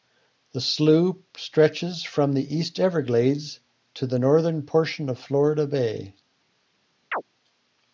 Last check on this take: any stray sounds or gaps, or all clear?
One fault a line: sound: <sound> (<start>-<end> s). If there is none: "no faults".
sound: chirp (7.1-7.2 s)